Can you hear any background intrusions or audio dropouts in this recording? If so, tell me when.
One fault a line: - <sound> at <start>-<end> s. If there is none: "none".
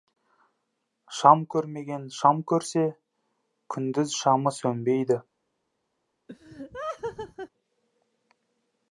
- laugh at 6.3-7.5 s